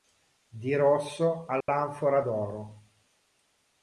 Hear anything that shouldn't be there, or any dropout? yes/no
yes